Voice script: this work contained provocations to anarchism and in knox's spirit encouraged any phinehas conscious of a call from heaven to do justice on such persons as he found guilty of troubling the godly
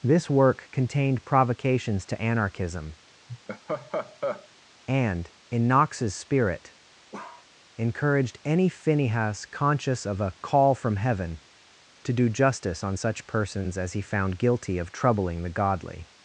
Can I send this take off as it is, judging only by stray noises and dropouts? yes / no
no